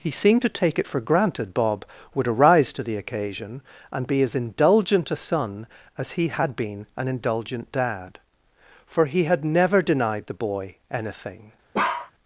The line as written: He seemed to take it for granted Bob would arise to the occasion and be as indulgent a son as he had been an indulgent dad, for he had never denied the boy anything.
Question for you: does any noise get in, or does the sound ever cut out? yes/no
yes